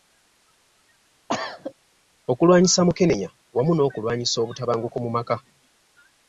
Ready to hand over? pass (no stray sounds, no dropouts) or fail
fail